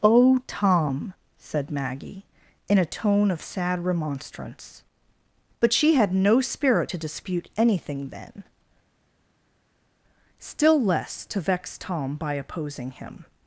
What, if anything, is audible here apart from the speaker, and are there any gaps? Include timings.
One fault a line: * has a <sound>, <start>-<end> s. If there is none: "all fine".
all fine